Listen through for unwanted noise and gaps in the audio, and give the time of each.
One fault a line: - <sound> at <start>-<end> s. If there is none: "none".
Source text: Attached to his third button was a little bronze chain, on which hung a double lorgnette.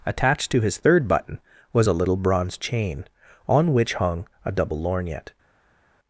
none